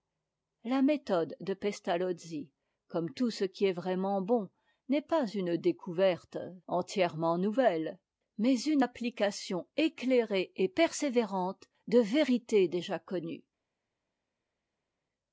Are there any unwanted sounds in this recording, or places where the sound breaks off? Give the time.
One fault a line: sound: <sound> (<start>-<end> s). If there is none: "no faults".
no faults